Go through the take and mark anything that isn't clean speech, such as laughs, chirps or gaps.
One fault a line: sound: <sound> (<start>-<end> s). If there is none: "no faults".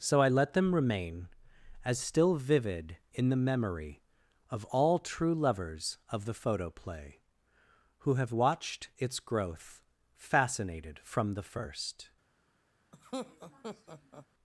sound: laugh (12.9-14.3 s)